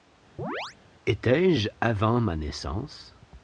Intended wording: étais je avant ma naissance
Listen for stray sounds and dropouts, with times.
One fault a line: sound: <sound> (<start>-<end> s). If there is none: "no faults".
sound: chirp (0.4-0.8 s)